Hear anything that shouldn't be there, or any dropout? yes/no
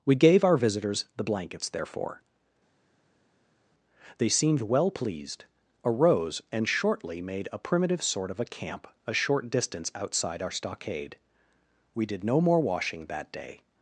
no